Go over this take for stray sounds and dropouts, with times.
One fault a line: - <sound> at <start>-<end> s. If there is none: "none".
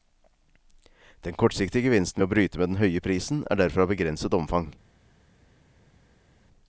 none